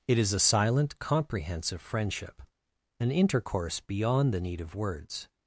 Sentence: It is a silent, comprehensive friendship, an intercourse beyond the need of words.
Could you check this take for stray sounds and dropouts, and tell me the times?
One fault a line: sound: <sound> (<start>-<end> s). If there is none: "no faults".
no faults